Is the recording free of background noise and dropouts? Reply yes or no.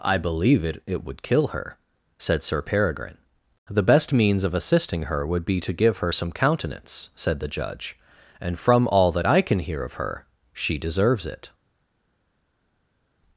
yes